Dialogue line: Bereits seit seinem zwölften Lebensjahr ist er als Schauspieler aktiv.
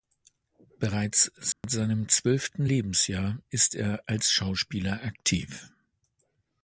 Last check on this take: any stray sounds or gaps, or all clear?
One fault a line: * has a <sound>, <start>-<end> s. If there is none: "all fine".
* has a dropout, 1.5-1.6 s